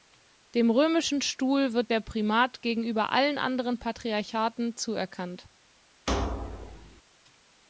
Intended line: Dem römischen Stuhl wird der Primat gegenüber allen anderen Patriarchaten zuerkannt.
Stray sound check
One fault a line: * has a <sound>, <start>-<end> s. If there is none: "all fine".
* has a thud, 6.1-7.0 s